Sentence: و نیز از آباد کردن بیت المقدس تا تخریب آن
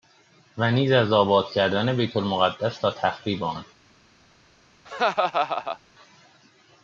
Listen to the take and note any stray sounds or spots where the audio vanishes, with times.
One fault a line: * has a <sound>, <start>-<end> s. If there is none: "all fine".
* has a laugh, 4.8-5.8 s